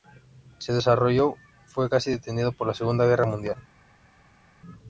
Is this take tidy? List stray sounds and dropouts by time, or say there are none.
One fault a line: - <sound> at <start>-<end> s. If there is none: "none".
none